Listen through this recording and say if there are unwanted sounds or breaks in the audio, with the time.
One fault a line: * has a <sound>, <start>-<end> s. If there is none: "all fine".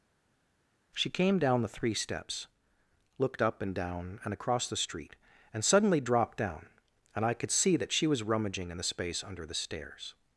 all fine